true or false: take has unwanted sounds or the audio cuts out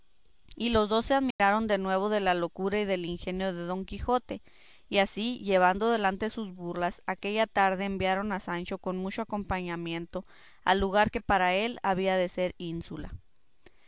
true